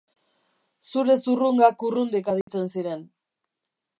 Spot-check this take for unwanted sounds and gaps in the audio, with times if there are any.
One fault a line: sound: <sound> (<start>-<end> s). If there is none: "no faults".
sound: dropout (2.4-2.5 s)